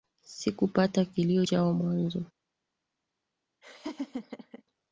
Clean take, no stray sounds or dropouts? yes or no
no